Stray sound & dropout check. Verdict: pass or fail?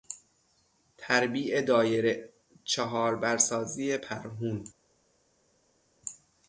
pass